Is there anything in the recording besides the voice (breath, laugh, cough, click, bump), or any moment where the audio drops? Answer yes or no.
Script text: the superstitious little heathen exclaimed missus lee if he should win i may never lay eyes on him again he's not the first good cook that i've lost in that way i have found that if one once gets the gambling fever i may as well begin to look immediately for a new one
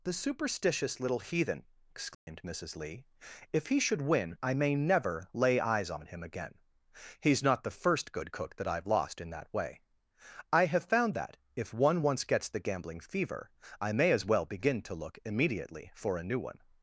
yes